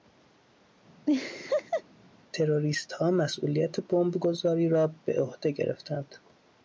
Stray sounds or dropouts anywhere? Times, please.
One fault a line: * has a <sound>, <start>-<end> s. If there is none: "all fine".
* has a laugh, 1.1-1.8 s